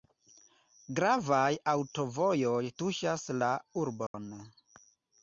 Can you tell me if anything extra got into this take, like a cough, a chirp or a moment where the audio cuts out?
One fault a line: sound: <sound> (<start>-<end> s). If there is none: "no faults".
sound: dropout (4.1-4.1 s)